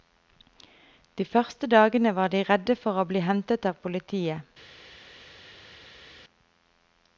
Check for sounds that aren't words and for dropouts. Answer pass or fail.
pass